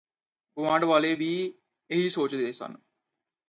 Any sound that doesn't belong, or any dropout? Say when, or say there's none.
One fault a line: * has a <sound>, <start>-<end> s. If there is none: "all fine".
all fine